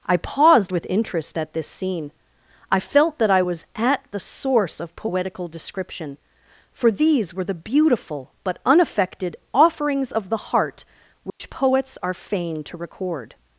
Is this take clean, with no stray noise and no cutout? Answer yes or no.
no